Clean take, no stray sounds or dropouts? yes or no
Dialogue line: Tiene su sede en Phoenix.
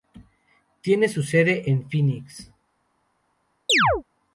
no